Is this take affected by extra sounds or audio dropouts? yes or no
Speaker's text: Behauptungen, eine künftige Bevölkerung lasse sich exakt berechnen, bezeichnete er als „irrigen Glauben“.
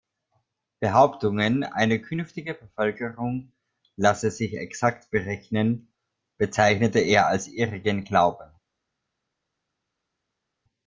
no